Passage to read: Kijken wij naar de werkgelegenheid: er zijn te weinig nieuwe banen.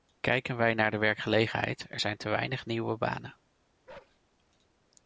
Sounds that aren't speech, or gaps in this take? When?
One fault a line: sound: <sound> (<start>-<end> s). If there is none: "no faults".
sound: bark (3.9-4.2 s)